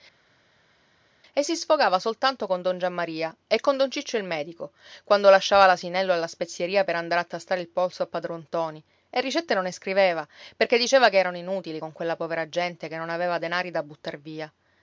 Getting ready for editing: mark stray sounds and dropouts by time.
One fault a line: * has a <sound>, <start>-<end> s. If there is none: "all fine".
all fine